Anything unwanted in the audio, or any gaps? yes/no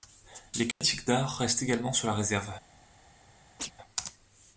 yes